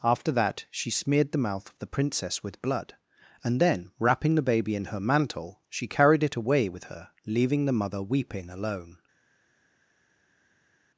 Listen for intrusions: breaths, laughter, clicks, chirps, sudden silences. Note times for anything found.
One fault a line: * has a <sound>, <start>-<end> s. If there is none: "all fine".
all fine